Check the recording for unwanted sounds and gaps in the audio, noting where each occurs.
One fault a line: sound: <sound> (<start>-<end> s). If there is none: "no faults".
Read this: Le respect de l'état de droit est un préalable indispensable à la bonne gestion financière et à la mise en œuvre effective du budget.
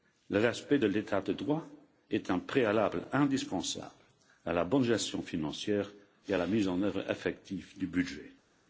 no faults